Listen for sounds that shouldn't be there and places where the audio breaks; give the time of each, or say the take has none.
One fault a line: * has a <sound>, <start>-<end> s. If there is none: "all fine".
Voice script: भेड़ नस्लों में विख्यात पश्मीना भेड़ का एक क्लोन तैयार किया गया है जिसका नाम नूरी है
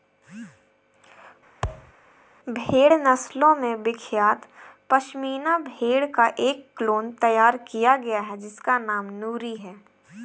* has a thud, 1.6-1.9 s